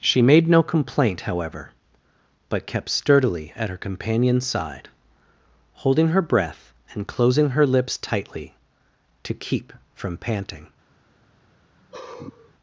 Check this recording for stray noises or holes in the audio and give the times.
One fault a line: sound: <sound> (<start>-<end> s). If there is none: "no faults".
sound: sigh (11.8-12.5 s)